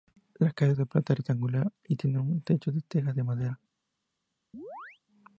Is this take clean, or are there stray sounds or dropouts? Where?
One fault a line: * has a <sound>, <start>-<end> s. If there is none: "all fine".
* has a chirp, 4.5-5.0 s